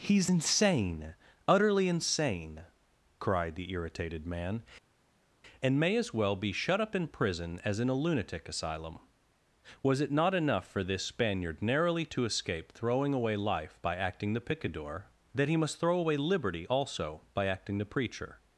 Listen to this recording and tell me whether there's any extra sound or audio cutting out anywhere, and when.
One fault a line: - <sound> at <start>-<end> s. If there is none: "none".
none